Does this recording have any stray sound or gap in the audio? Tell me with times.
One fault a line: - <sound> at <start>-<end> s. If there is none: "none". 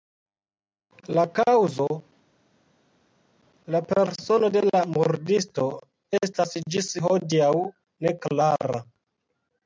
none